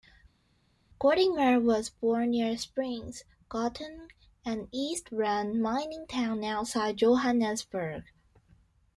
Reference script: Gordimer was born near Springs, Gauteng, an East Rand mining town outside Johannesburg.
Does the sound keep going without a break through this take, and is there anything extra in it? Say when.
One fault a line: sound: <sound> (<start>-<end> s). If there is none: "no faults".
no faults